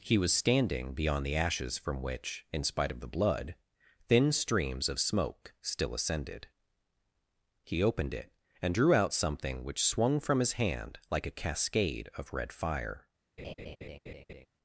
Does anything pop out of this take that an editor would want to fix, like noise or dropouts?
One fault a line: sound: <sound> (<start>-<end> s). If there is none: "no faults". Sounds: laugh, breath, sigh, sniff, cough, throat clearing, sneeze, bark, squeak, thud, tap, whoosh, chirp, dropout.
sound: laugh (13.4-14.5 s)